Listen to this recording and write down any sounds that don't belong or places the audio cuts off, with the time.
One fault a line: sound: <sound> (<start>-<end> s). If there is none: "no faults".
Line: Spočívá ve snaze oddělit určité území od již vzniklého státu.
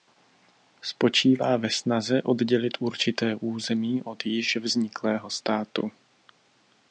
no faults